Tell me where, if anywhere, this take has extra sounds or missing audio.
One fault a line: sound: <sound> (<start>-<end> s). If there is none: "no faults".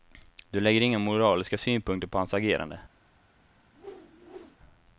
sound: whoosh (3.7-4.6 s)